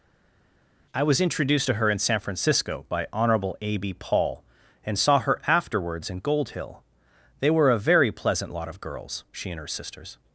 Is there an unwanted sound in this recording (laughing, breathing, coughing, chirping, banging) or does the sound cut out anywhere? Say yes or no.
no